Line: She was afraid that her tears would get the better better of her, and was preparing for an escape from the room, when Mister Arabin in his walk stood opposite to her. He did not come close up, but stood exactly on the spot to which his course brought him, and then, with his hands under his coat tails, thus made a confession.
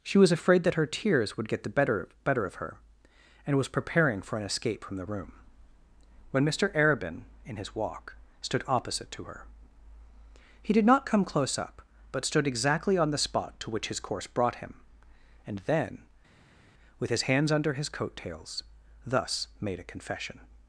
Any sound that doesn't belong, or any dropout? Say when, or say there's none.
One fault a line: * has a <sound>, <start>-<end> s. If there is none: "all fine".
all fine